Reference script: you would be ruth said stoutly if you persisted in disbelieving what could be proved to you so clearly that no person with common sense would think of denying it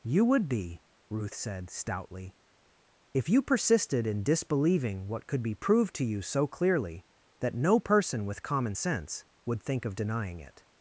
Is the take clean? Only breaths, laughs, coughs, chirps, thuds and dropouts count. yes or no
yes